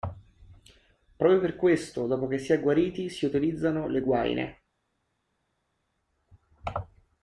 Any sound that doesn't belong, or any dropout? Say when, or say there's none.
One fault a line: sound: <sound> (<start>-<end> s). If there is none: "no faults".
no faults